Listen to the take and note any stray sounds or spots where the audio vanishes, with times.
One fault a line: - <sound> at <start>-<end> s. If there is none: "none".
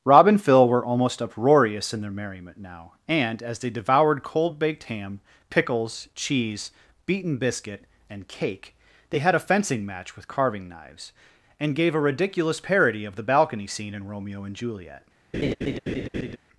- laugh at 15.3-16.4 s